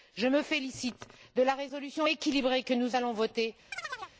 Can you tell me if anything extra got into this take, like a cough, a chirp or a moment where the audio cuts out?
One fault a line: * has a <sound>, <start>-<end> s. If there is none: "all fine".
* has a chirp, 3.7-4.2 s